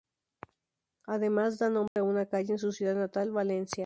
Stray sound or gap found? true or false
true